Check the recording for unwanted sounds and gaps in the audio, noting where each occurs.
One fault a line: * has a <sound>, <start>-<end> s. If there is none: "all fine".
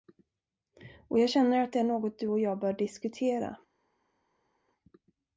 all fine